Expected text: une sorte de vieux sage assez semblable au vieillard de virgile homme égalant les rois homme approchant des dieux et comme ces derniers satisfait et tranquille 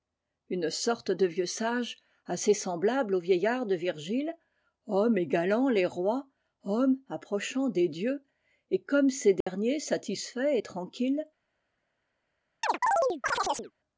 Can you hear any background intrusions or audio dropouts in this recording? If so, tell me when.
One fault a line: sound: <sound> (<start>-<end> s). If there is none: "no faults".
sound: dropout (9.4-9.5 s)
sound: chirp (12.6-13.7 s)